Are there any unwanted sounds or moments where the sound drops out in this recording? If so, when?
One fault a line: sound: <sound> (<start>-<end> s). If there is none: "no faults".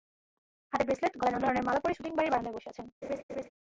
sound: laugh (3.0-3.5 s)